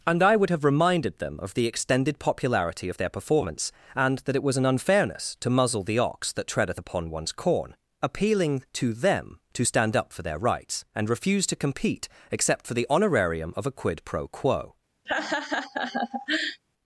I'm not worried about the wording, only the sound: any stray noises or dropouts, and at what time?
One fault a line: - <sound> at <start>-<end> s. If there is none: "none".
- laugh at 15.1-16.6 s